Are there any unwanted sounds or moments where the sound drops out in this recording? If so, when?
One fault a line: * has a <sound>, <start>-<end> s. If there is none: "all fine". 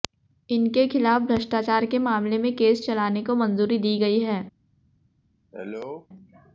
* has a cough, 5.5-6.1 s